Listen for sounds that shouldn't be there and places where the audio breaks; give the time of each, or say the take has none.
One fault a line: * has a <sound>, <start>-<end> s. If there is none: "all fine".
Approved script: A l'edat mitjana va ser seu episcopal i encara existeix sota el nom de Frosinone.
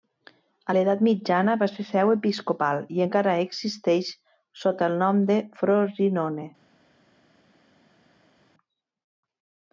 all fine